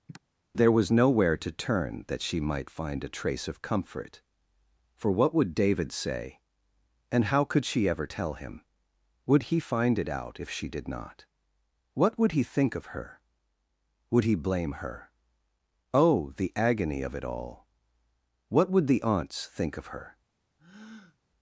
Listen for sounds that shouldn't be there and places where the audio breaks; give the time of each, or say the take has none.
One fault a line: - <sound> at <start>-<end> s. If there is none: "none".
- sigh at 0.1-0.2 s
- breath at 20.6-21.2 s